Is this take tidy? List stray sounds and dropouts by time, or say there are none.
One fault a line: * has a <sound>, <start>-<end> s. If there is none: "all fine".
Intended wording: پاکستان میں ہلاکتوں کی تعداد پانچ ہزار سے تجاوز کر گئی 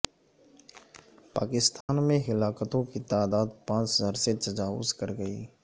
* has a dropout, 1.8-1.9 s